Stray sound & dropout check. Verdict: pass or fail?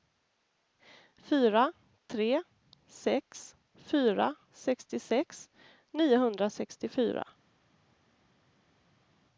pass